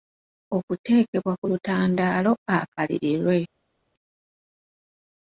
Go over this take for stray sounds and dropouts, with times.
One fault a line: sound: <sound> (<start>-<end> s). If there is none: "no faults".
no faults